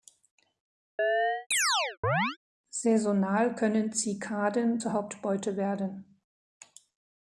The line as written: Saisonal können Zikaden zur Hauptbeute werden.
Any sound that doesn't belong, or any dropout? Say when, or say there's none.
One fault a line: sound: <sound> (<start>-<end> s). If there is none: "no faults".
sound: chirp (1.0-2.4 s)